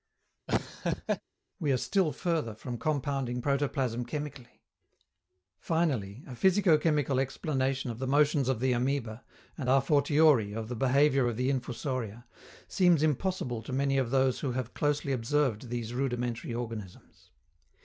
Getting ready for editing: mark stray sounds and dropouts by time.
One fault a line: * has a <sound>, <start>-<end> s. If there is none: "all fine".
* has a laugh, 0.5-1.2 s